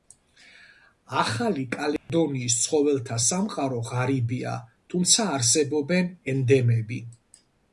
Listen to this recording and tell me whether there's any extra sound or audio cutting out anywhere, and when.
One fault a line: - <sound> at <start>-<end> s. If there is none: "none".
- dropout at 2.0-2.1 s